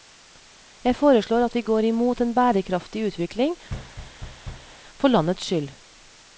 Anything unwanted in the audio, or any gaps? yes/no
yes